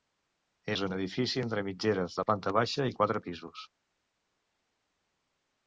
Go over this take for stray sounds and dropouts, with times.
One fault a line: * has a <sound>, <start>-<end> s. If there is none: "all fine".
all fine